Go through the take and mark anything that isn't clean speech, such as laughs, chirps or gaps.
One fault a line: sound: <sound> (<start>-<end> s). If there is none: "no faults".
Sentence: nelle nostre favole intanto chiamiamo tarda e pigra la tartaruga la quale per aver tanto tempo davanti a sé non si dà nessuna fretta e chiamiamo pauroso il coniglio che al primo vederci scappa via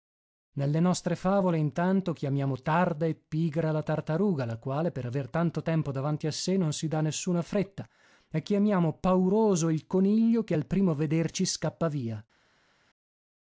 no faults